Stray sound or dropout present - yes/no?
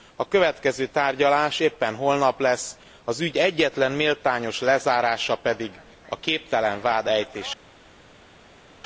no